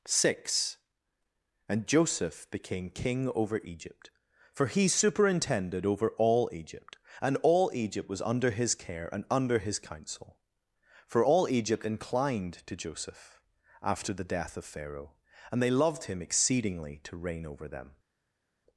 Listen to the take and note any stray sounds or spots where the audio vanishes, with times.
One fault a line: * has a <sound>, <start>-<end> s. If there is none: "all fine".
all fine